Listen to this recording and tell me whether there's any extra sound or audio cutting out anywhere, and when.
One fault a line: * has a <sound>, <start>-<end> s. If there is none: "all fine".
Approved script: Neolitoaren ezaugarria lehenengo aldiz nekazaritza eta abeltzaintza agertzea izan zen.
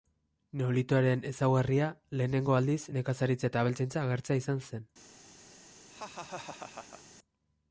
* has a laugh, 5.9-7.0 s